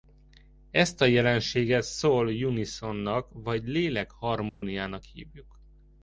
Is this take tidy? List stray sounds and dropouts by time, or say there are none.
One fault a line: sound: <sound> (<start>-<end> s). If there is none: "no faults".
sound: dropout (4.5-4.6 s)